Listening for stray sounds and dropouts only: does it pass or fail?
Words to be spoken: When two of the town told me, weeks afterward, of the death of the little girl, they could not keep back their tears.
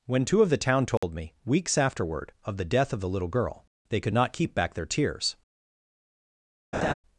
fail